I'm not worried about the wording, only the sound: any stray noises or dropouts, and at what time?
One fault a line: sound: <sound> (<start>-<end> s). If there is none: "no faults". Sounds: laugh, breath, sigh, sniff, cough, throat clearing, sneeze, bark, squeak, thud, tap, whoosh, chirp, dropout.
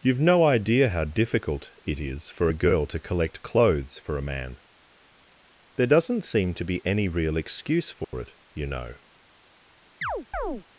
sound: dropout (8.0-8.1 s)
sound: chirp (10.0-10.6 s)